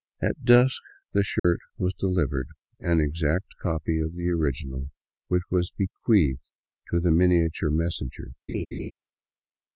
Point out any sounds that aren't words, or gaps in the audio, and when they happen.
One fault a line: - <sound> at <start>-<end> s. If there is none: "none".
- dropout at 1.4-1.4 s
- laugh at 8.5-8.9 s